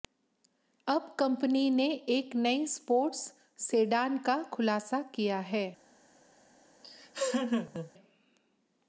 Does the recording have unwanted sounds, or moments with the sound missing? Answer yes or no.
yes